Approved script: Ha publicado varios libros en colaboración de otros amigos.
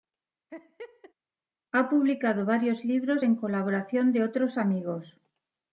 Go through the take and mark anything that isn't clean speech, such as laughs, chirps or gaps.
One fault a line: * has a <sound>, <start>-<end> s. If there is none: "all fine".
* has a laugh, 0.5-1.1 s